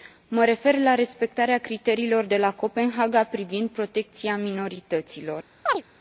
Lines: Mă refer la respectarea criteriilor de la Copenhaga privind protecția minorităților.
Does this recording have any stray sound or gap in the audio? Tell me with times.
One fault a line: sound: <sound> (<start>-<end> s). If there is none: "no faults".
sound: chirp (5.7-5.8 s)